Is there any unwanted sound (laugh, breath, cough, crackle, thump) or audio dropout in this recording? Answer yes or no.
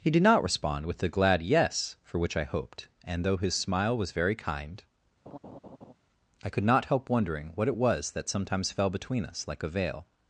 yes